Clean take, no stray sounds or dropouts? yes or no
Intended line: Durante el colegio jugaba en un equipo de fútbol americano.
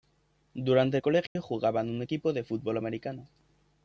no